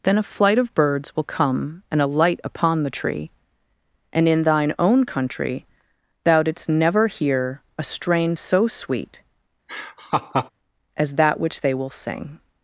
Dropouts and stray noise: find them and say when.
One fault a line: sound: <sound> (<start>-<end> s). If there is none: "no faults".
sound: laugh (9.7-10.5 s)